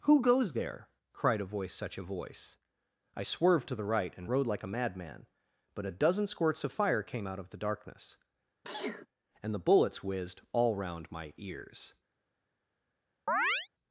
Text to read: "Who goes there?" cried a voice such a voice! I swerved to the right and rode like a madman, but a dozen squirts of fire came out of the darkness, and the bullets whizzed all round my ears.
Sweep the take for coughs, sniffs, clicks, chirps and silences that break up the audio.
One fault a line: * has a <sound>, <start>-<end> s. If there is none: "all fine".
* has a sneeze, 8.6-9.1 s
* has a chirp, 13.3-13.7 s